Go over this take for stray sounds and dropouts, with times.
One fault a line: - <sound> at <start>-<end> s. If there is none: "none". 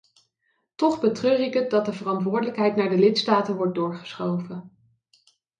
none